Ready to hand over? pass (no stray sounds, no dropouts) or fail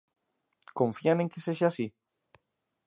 pass